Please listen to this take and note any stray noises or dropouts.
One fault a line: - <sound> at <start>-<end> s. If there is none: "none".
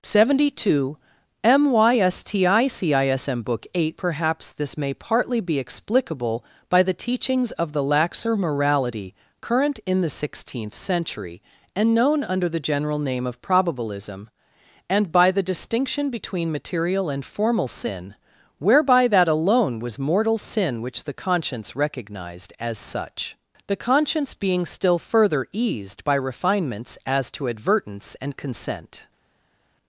none